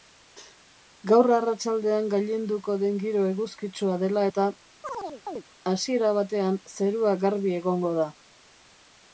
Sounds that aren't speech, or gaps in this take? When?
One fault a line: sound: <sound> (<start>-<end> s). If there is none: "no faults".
sound: chirp (4.8-5.4 s)